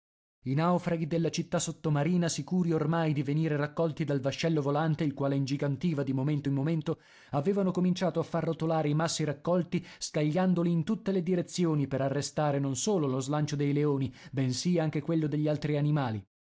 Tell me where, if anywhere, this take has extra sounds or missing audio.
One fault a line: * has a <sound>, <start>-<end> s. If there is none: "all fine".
all fine